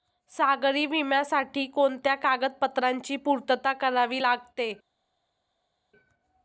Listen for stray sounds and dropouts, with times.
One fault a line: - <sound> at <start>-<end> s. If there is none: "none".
none